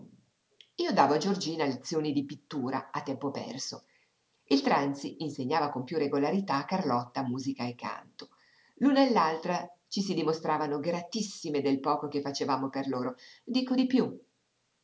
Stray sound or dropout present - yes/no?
no